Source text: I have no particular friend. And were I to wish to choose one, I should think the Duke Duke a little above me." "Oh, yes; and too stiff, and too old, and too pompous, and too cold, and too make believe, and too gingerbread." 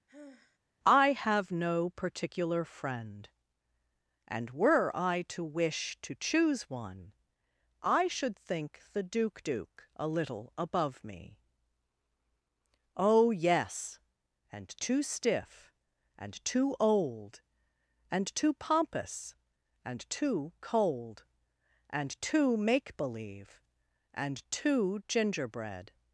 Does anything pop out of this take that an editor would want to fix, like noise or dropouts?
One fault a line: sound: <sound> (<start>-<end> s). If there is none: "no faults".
sound: sigh (0.1-0.6 s)